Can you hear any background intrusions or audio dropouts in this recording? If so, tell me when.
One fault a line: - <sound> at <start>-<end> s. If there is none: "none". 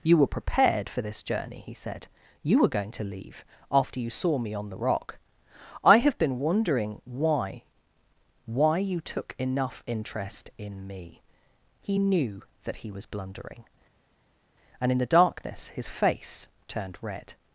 none